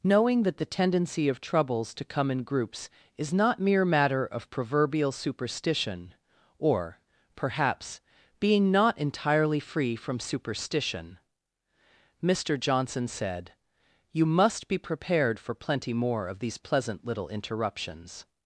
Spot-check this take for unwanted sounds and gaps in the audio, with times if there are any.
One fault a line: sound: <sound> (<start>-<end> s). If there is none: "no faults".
no faults